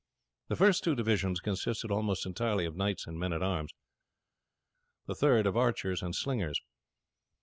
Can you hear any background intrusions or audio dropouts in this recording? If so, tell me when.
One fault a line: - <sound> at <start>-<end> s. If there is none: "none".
none